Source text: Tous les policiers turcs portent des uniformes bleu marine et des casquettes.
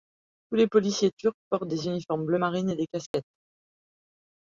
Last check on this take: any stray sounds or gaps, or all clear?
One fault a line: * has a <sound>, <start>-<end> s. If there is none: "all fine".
* has a dropout, 3.1-3.1 s